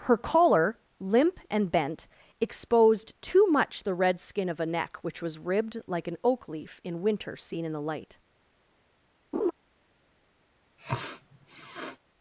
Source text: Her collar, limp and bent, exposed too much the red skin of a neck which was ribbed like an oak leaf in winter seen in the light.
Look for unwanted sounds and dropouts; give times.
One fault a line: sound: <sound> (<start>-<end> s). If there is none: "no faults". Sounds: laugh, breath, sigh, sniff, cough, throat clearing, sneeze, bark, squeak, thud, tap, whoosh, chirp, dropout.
sound: laugh (9.3-9.5 s)
sound: sniff (10.8-12.0 s)